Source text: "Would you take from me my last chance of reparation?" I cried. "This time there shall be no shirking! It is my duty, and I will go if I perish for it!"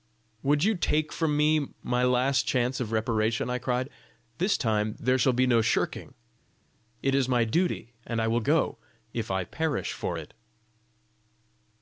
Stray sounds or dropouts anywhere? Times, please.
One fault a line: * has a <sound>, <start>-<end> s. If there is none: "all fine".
all fine